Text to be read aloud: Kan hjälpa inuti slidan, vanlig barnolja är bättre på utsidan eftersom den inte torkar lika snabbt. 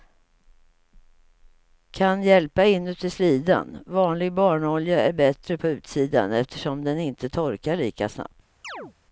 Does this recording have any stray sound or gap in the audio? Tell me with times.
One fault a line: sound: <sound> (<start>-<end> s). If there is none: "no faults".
sound: chirp (8.6-8.9 s)